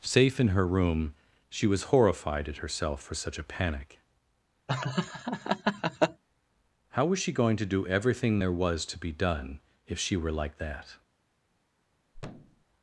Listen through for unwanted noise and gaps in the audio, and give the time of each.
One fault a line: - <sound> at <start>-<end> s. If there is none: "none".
- laugh at 4.7-6.2 s
- thud at 12.1-12.7 s